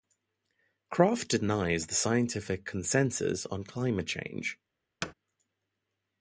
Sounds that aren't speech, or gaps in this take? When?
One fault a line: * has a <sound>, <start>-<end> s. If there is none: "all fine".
* has a thud, 5.0-5.1 s